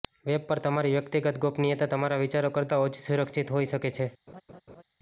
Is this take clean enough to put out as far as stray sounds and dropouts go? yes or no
no